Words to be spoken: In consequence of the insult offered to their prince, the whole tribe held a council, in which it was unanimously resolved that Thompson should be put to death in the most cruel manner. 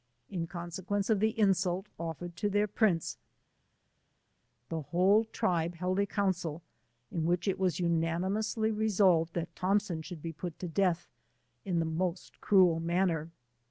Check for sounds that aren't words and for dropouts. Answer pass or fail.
pass